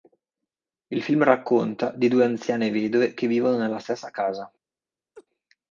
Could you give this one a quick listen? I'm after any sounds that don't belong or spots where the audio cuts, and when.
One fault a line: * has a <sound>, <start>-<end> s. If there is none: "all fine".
* has a laugh, 5.1-5.3 s